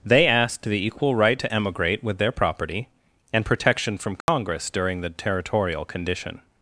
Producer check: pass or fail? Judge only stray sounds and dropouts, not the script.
fail